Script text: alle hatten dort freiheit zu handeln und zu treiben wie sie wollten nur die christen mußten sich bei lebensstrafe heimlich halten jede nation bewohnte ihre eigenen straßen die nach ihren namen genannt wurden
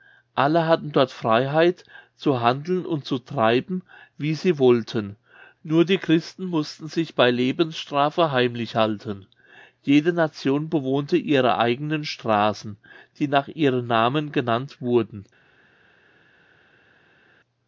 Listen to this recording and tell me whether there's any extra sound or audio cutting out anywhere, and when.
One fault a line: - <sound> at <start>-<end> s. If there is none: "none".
none